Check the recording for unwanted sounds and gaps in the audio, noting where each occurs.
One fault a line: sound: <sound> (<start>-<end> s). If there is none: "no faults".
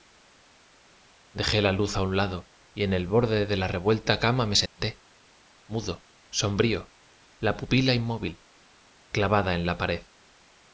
sound: dropout (4.7-4.8 s)